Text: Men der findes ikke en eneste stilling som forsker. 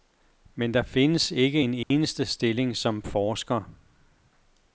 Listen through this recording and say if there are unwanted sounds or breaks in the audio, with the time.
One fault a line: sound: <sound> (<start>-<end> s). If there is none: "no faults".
sound: dropout (1.8-1.9 s)